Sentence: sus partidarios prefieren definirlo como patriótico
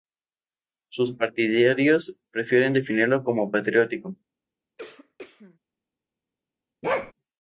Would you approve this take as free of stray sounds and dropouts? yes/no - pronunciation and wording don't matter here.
no